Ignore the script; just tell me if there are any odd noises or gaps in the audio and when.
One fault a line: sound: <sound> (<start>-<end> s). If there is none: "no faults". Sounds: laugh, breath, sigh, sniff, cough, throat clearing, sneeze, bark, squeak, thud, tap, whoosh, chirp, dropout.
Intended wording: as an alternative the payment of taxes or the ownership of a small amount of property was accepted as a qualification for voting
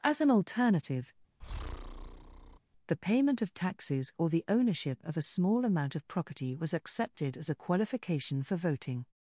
sound: breath (1.4-2.6 s)